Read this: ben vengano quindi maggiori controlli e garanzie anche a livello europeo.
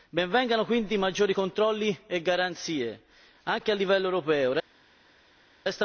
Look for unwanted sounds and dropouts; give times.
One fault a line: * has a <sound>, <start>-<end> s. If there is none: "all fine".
all fine